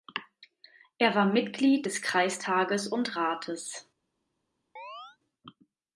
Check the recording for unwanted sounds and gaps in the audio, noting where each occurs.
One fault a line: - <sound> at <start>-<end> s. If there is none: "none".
- chirp at 4.8-5.2 s